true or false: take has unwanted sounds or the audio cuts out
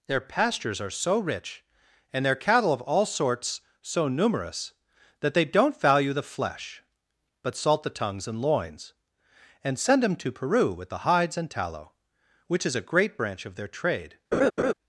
true